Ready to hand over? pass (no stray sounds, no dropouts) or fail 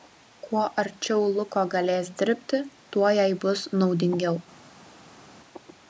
pass